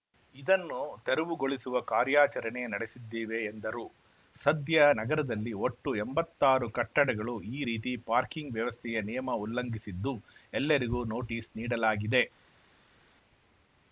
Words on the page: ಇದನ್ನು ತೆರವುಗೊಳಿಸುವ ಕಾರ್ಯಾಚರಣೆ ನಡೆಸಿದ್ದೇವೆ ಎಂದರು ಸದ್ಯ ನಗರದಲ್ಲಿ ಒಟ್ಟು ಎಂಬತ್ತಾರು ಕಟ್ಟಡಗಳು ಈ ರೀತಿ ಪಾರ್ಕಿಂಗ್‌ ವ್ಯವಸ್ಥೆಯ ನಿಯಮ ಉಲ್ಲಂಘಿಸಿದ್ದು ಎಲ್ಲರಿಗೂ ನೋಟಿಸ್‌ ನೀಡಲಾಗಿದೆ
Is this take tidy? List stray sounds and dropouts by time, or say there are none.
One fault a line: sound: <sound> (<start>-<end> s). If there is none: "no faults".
no faults